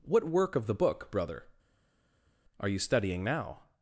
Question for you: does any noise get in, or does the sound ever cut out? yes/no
no